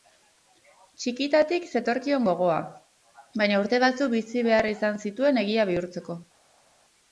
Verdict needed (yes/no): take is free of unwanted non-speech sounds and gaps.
yes